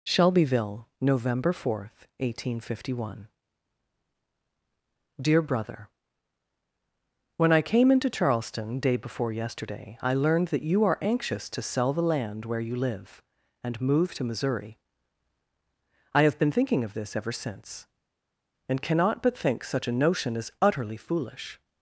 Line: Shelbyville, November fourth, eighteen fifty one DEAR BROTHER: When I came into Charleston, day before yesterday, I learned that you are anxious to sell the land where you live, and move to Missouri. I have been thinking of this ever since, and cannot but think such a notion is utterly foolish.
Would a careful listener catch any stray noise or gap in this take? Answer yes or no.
no